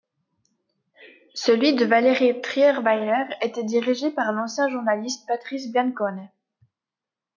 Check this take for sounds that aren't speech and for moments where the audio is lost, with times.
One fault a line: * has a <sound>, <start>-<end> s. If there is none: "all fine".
all fine